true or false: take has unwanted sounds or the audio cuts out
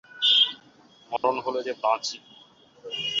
true